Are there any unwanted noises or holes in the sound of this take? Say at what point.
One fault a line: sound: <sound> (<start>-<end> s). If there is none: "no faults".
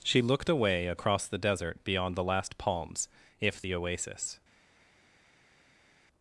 no faults